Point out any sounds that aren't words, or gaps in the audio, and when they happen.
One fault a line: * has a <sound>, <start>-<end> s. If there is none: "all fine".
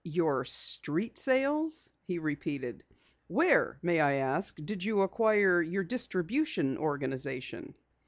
all fine